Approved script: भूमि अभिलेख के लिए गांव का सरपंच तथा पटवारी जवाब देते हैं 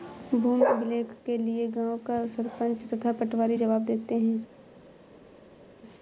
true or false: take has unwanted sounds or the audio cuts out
false